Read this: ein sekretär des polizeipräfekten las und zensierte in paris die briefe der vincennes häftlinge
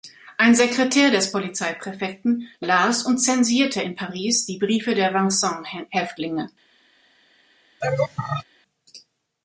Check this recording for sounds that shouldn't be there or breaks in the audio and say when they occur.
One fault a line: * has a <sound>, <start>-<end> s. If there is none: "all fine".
* has a laugh, 7.8-8.4 s